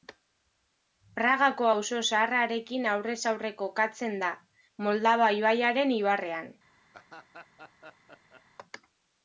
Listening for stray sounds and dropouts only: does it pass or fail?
fail